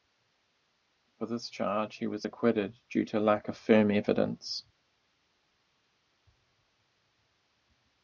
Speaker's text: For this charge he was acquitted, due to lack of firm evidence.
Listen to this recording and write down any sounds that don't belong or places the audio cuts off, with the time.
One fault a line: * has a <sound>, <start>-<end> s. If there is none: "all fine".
all fine